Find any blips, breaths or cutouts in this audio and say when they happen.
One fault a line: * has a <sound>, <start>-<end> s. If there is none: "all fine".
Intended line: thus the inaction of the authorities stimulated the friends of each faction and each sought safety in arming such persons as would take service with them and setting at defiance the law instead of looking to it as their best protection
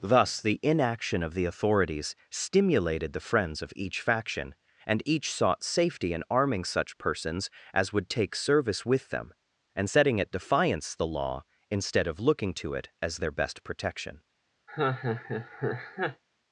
* has a laugh, 14.7-16.2 s